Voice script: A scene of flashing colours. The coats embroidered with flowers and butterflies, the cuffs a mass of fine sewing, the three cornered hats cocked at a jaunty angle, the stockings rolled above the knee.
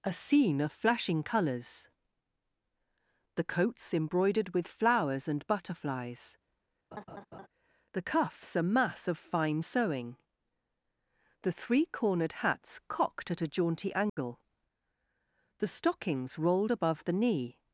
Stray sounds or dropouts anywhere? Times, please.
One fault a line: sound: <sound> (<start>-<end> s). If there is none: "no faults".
sound: laugh (6.9-7.5 s)
sound: dropout (14.1-14.2 s)